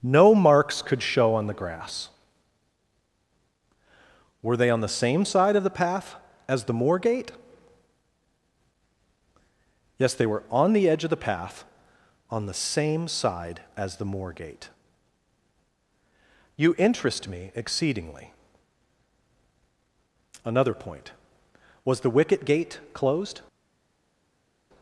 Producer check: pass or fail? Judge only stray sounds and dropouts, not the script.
pass